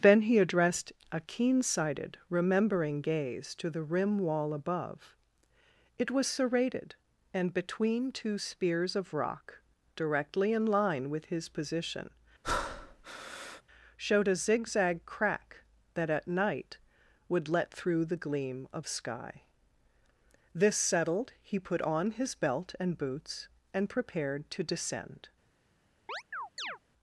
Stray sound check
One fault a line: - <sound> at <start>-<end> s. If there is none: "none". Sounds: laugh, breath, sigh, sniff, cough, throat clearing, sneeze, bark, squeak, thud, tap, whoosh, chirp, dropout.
- breath at 12.4-13.6 s
- chirp at 26.1-26.8 s